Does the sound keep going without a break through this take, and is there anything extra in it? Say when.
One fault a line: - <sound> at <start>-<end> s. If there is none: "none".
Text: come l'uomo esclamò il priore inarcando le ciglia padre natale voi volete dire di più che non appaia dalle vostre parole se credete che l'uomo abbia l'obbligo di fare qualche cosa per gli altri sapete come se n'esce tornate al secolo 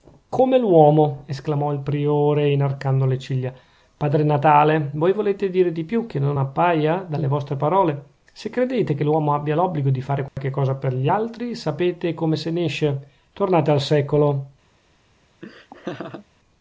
- dropout at 10.3-10.4 s
- laugh at 15.4-16.3 s